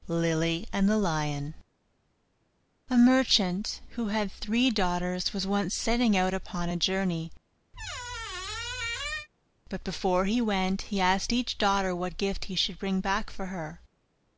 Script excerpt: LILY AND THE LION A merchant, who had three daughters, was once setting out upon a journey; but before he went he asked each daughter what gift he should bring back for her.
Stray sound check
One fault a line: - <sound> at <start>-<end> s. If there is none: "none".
- squeak at 7.7-9.3 s